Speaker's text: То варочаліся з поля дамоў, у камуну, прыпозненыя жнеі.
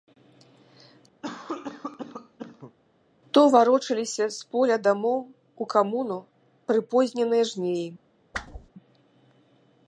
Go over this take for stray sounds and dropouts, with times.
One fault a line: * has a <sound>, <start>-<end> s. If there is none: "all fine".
* has a cough, 1.2-2.8 s
* has a whoosh, 8.3-8.7 s